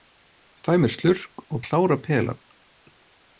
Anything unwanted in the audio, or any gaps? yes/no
no